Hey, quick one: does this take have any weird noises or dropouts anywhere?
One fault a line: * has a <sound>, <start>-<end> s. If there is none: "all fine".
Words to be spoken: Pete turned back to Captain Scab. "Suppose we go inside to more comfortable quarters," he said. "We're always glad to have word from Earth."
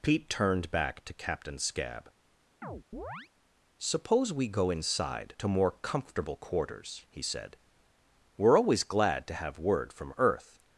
* has a chirp, 2.6-3.3 s